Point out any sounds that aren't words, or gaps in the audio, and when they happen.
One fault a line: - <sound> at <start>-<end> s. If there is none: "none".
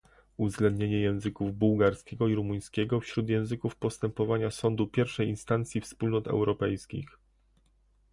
none